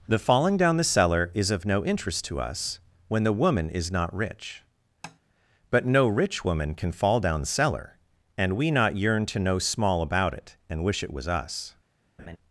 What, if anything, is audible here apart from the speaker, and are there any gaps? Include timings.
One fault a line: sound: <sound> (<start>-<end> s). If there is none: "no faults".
sound: tap (5.0-5.2 s)
sound: laugh (12.2-12.4 s)